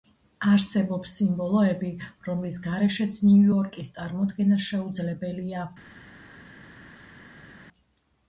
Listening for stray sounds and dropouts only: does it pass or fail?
pass